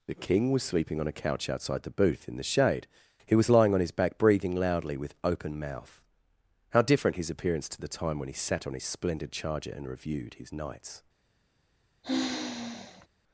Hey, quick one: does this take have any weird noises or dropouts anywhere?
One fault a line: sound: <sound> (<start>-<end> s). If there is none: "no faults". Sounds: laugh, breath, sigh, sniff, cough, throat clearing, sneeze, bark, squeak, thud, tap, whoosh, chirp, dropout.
sound: sigh (12.0-13.1 s)